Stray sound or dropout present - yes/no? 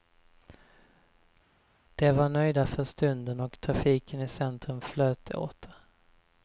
no